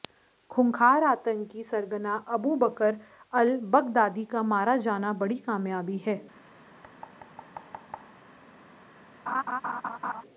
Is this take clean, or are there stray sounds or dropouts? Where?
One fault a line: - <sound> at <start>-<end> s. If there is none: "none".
- thud at 6.8-8.2 s
- laugh at 9.3-10.2 s